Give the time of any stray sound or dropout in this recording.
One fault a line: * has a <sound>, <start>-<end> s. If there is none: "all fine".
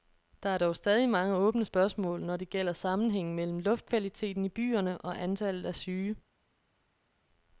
all fine